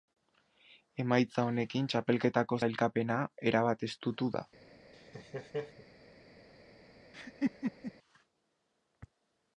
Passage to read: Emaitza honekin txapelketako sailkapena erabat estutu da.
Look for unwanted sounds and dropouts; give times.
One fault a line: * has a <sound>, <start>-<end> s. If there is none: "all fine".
* has a laugh, 4.9-5.9 s
* has a laugh, 7.1-7.9 s